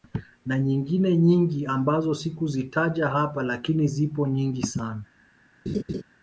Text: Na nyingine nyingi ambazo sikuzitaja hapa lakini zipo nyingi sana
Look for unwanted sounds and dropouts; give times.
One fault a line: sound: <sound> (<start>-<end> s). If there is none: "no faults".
sound: laugh (5.7-6.0 s)